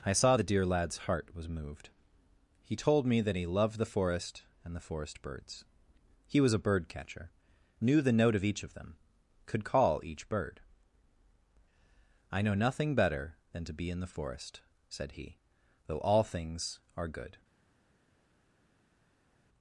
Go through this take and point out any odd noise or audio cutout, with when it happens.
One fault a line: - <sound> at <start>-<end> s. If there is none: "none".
none